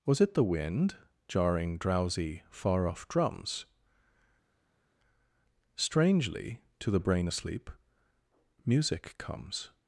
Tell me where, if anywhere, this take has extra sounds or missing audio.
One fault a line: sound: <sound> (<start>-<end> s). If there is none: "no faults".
no faults